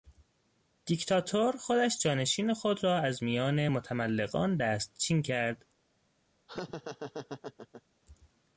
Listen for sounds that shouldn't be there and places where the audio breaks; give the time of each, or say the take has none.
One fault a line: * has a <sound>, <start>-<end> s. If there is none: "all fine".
* has a laugh, 6.5-7.8 s